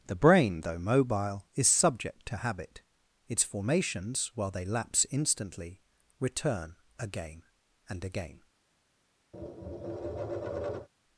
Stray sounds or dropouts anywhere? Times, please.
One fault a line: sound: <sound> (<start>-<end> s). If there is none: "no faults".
sound: tap (9.3-10.9 s)